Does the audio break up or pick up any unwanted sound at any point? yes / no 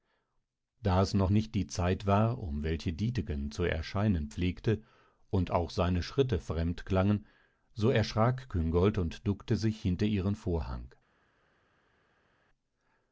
no